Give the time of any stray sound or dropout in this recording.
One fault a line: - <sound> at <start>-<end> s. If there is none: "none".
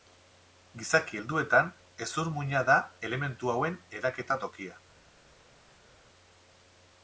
none